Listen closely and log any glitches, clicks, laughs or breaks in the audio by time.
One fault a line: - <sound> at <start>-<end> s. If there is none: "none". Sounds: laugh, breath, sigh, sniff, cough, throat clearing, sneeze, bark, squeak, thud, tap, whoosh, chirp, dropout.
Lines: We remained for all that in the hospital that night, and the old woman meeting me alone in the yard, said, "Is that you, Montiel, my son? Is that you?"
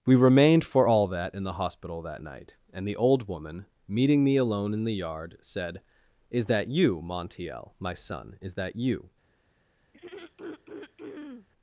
- throat clearing at 9.9-11.5 s